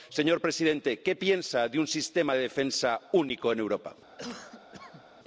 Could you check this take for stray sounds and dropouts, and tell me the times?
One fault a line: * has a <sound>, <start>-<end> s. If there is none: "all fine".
* has a cough, 4.2-5.0 s